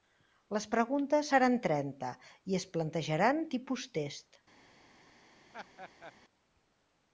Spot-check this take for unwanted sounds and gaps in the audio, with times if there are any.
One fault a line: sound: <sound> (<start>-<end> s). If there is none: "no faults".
sound: laugh (5.5-6.1 s)